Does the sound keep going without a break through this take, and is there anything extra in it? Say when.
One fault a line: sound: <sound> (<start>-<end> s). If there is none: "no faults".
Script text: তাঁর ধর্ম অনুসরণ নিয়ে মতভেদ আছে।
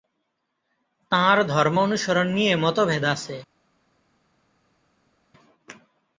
no faults